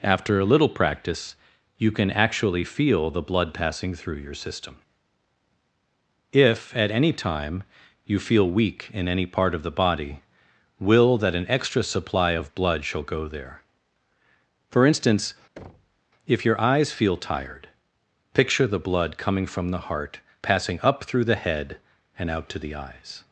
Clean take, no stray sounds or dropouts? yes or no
no